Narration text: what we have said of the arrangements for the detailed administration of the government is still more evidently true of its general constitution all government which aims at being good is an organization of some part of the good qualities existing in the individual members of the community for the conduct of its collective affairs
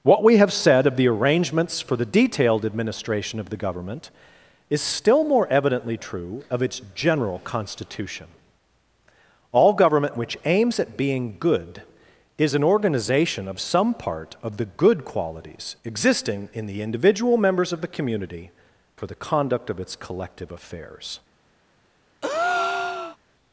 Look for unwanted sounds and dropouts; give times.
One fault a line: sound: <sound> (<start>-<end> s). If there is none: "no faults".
sound: breath (22.2-23.2 s)